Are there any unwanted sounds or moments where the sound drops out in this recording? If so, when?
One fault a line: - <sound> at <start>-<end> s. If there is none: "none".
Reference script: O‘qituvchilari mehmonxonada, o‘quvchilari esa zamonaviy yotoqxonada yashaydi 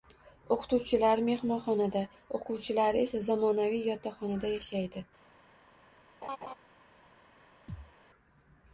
- laugh at 6.2-6.5 s
- thud at 7.7-7.9 s